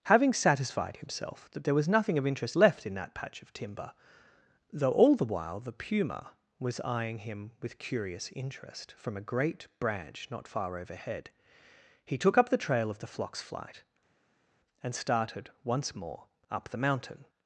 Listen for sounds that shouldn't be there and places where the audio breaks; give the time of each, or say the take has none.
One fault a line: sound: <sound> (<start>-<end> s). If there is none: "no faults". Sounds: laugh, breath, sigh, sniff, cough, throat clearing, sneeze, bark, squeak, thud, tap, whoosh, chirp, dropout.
no faults